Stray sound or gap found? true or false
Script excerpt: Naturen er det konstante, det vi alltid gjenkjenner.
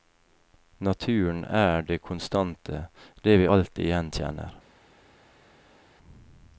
false